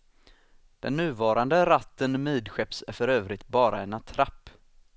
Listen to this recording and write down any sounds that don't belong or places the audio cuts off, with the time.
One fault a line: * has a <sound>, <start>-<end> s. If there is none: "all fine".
all fine